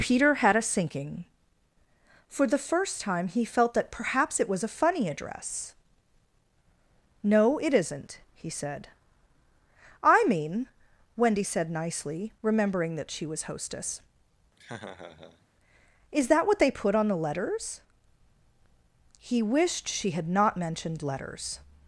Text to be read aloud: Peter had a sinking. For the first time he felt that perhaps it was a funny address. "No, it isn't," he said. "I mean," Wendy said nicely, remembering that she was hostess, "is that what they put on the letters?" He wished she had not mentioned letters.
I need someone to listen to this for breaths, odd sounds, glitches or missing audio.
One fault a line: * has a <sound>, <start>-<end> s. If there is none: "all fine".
* has a laugh, 14.6-15.5 s